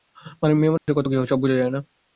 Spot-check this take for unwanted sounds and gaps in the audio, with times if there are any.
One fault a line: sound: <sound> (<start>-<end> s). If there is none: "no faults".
sound: dropout (0.8-0.9 s)